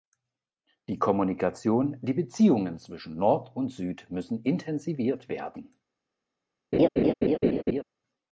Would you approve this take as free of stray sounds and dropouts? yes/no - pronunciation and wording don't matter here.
no